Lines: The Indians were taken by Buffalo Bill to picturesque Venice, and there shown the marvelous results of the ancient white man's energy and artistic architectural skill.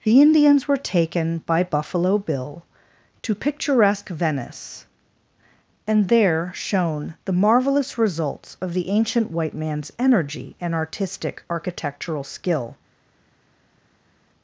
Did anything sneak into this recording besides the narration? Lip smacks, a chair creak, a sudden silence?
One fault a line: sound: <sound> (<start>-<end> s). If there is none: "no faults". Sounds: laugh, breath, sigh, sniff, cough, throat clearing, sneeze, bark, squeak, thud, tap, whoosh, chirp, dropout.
no faults